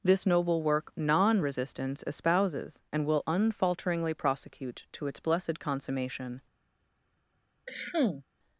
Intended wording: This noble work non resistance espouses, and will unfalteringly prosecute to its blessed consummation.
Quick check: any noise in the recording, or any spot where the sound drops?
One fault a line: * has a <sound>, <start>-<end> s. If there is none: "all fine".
* has a cough, 7.7-8.2 s